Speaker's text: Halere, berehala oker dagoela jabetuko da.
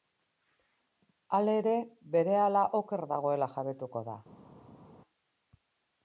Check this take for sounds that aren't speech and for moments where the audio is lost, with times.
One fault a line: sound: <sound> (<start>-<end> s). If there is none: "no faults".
no faults